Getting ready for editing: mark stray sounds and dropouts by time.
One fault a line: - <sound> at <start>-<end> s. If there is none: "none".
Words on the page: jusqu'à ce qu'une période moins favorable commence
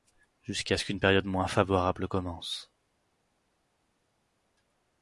none